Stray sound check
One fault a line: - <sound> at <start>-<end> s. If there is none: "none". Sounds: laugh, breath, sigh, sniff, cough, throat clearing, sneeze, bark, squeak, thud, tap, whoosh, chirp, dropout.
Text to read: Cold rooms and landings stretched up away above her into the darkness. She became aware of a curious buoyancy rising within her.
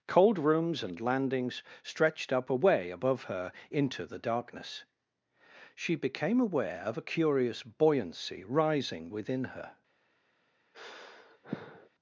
- sigh at 10.7-11.9 s